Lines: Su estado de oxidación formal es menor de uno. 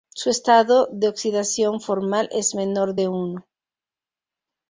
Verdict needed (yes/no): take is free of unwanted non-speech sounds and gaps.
yes